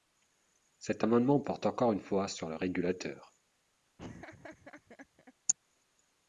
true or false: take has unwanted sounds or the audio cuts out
true